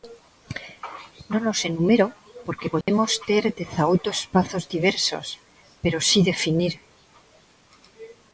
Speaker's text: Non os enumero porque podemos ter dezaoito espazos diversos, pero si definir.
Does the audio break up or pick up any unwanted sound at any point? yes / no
yes